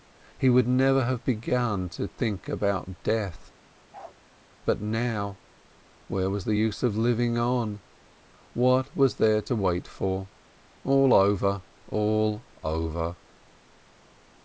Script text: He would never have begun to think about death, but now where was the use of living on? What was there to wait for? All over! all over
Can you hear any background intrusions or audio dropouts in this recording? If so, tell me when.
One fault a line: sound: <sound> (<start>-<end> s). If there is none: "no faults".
sound: bark (3.9-4.2 s)